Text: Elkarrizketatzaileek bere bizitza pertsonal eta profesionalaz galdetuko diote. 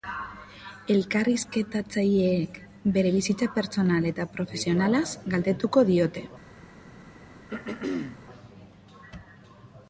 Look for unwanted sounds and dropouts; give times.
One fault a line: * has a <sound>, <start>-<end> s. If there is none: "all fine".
* has a throat clearing, 7.5-8.2 s